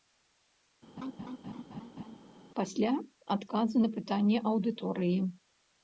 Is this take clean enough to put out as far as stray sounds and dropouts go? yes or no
no